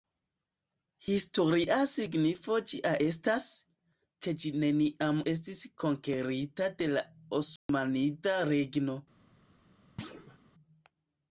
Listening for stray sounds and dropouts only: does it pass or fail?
fail